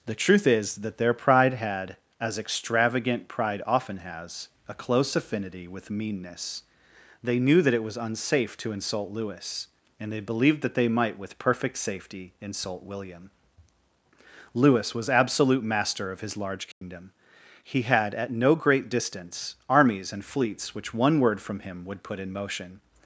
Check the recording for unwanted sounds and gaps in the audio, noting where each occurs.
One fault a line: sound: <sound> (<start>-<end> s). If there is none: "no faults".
sound: dropout (16.7-16.8 s)